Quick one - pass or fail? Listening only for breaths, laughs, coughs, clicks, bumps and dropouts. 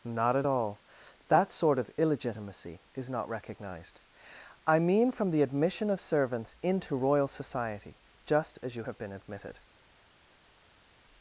pass